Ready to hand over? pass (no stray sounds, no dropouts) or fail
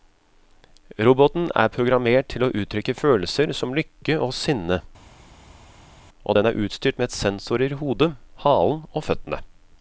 pass